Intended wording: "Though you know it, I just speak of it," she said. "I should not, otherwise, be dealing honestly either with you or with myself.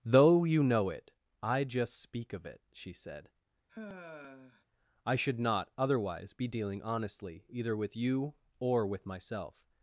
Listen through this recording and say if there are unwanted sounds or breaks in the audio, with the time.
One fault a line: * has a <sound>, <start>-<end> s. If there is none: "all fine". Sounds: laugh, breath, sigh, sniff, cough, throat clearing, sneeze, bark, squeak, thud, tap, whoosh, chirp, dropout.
* has a sigh, 3.7-4.7 s